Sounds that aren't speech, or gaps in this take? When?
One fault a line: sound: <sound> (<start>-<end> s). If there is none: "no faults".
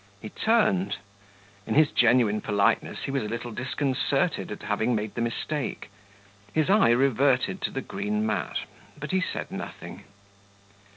no faults